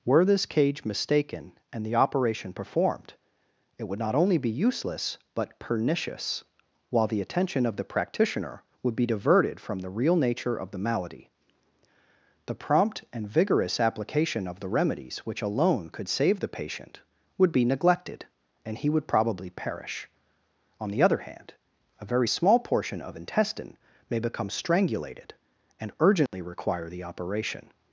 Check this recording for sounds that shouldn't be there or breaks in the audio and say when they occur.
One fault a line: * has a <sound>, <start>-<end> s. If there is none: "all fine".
* has a dropout, 26.3-26.3 s